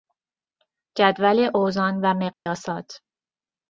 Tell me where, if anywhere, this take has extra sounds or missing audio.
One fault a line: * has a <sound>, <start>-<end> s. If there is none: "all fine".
* has a dropout, 2.3-2.5 s